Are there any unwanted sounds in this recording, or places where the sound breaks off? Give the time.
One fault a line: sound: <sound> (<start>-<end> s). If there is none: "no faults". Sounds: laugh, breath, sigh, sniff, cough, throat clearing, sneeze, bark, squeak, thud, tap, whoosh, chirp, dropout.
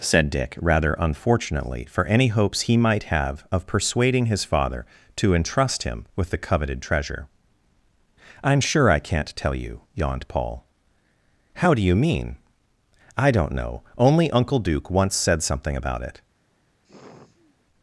sound: sigh (16.8-17.6 s)